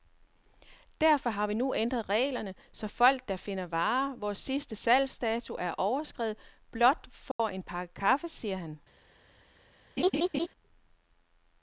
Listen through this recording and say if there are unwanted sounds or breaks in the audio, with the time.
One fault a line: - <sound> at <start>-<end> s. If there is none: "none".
- dropout at 7.3-7.4 s
- laugh at 10.0-10.5 s